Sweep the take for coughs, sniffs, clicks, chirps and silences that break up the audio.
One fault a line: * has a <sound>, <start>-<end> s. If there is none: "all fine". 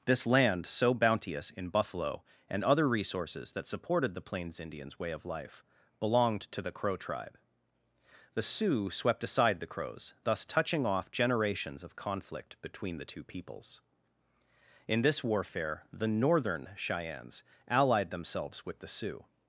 all fine